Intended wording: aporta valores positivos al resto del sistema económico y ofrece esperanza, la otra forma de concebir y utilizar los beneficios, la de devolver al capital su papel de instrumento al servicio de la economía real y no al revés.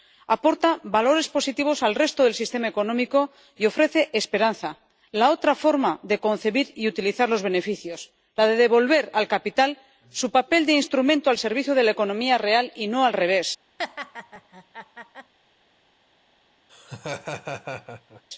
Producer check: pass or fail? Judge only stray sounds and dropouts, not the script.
fail